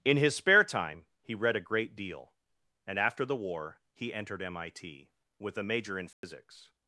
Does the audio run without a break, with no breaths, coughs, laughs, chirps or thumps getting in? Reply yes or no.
no